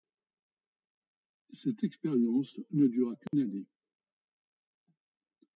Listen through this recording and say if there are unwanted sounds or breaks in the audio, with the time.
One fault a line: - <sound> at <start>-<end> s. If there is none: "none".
- dropout at 3.3-3.3 s